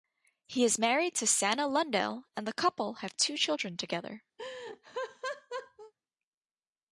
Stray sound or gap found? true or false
true